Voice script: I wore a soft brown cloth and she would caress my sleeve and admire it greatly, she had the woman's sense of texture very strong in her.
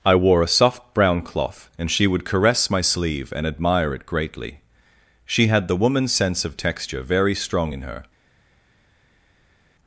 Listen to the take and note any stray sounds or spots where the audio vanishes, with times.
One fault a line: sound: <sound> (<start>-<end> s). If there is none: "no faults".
no faults